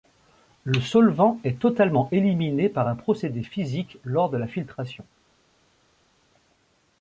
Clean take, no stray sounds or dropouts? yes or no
yes